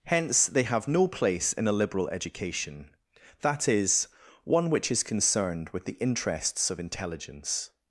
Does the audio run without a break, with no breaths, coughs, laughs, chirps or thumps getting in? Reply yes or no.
yes